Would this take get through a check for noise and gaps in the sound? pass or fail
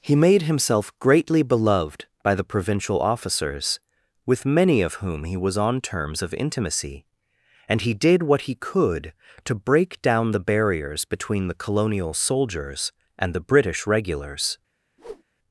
fail